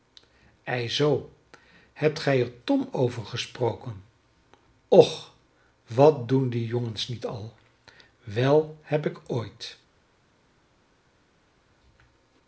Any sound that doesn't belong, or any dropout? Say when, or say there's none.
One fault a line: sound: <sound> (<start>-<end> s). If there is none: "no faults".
no faults